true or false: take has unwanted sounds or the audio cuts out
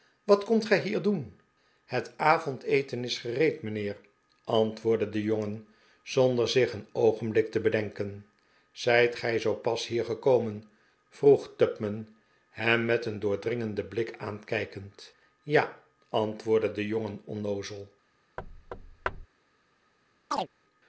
true